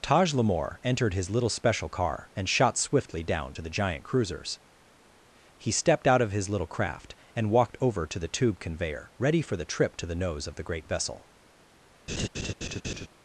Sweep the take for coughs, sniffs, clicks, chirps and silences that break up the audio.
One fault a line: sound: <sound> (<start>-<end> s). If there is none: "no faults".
sound: laugh (12.1-13.1 s)